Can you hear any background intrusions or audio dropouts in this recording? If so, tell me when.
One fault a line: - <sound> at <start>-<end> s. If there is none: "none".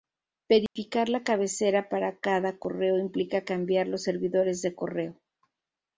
- dropout at 0.7-0.8 s